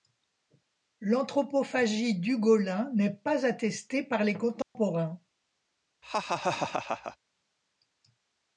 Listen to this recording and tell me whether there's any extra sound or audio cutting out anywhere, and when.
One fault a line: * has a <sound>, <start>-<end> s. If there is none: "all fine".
* has a dropout, 4.6-4.8 s
* has a laugh, 6.0-7.2 s